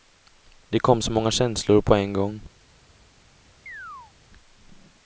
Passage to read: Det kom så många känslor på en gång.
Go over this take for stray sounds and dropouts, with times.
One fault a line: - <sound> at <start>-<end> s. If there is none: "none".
- chirp at 3.7-4.1 s